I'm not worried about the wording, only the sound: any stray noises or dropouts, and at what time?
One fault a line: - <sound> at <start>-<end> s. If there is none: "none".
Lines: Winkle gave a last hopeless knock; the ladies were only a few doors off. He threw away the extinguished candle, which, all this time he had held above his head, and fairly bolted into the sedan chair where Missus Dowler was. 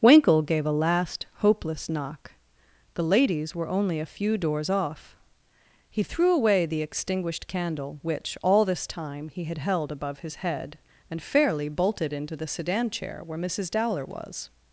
none